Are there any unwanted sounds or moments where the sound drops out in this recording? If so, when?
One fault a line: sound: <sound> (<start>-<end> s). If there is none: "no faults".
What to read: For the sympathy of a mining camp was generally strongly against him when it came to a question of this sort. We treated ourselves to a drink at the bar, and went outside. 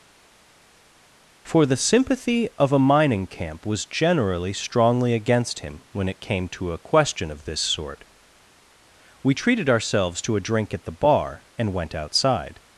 no faults